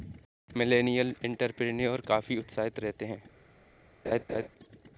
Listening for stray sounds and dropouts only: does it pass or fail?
fail